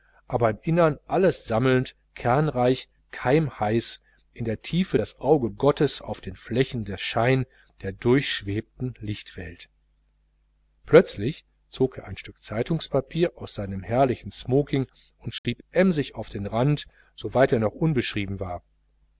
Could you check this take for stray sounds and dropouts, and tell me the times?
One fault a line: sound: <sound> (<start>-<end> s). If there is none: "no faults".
sound: dropout (15.4-15.4 s)